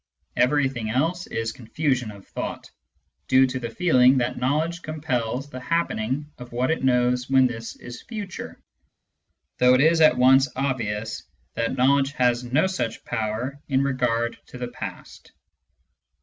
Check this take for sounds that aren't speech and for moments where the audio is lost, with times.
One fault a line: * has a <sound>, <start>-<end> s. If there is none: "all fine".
all fine